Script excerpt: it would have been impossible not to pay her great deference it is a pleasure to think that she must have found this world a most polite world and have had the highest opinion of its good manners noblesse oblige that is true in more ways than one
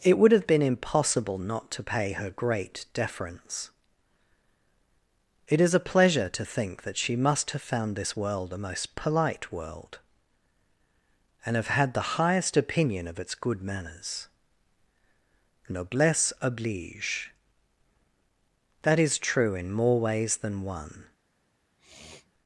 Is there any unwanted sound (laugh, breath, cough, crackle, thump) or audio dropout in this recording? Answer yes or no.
yes